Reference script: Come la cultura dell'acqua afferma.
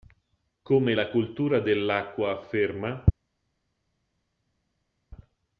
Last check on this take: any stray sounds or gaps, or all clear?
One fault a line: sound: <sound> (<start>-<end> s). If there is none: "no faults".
no faults